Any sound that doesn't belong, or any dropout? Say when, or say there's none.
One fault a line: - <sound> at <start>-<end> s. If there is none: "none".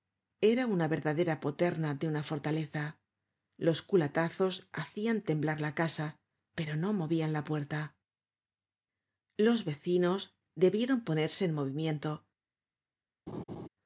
- laugh at 13.3-13.7 s